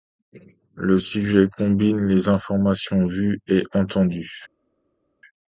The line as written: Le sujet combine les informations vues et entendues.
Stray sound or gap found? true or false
false